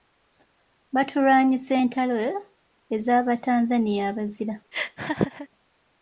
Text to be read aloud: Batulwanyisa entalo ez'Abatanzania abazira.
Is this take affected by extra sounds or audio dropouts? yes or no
yes